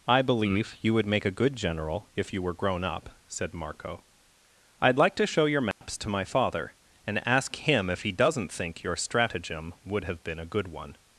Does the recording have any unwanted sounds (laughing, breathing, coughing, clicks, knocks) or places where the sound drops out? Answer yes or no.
yes